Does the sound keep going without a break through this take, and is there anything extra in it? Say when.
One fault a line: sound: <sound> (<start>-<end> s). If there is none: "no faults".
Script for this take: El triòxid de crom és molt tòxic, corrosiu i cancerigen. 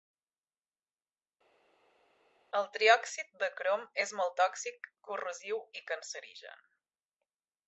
no faults